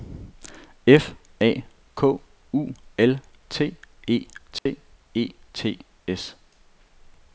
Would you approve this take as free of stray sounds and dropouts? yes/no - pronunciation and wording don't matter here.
no